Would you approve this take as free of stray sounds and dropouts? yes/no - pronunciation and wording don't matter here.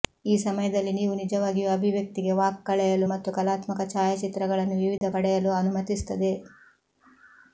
no